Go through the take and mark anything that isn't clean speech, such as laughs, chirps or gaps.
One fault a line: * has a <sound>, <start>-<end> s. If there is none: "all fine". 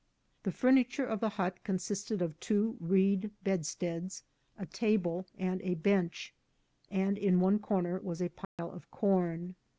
* has a dropout, 8.4-8.6 s